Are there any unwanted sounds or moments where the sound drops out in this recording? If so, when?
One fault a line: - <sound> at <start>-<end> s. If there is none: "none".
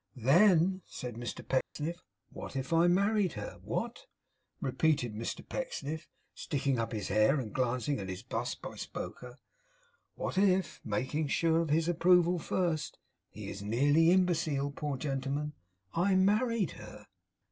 - dropout at 1.6-1.8 s